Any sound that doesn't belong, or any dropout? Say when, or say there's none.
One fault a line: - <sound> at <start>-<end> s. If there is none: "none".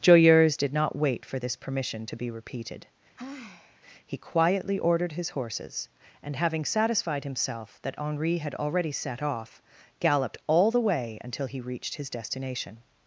- sigh at 3.2-3.8 s